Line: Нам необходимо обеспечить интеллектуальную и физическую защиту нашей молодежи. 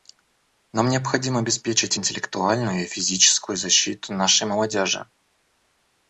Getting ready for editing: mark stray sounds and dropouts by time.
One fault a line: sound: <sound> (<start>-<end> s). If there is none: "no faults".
no faults